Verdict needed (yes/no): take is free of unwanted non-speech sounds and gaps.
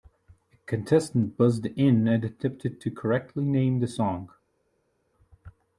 yes